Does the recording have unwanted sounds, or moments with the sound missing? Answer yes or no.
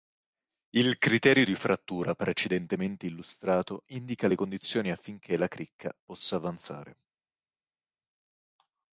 no